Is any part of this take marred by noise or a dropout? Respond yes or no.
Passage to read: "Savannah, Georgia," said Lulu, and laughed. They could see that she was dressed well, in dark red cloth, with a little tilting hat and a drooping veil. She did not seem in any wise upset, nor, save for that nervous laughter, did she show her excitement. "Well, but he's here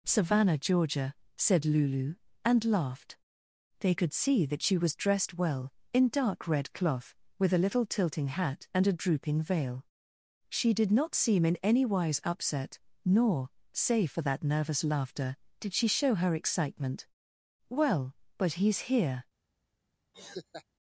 yes